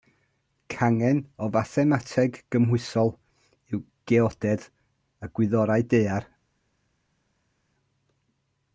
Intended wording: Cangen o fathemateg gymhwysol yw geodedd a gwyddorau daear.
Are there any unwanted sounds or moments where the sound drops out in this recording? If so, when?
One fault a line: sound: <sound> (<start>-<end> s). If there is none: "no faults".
no faults